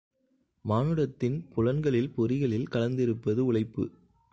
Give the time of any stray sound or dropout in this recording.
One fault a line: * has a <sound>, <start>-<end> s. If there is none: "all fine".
all fine